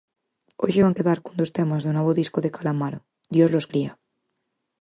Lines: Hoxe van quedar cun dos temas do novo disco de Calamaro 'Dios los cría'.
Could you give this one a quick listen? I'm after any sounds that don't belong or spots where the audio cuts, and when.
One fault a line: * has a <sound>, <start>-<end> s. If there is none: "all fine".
all fine